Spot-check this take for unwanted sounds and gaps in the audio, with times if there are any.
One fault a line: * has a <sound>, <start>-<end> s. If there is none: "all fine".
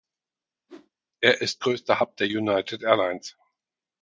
* has a whoosh, 0.7-0.9 s